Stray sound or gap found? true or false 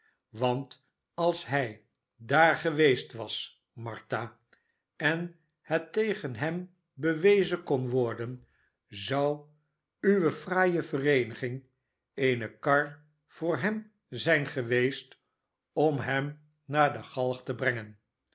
false